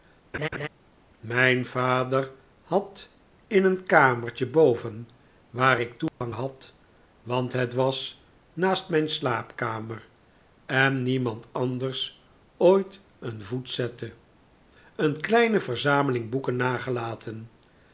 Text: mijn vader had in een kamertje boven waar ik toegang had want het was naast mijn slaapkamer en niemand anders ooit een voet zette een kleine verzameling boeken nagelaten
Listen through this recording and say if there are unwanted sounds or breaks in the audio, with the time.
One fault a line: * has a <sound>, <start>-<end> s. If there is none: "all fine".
* has a laugh, 0.3-0.7 s
* has a dropout, 6.1-6.2 s